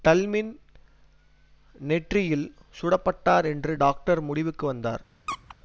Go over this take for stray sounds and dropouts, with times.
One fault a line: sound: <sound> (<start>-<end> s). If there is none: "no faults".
sound: squeak (5.3-5.6 s)